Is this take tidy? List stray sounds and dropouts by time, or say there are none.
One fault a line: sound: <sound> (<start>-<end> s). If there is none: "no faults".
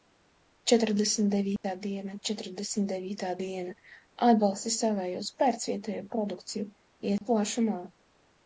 sound: dropout (1.6-1.6 s)
sound: dropout (7.2-7.2 s)